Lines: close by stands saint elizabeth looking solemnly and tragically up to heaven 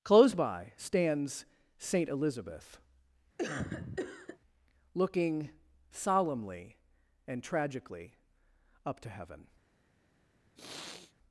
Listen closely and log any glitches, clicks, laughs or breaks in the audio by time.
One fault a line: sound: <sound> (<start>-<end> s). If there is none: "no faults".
sound: cough (3.4-4.4 s)
sound: sniff (10.6-11.1 s)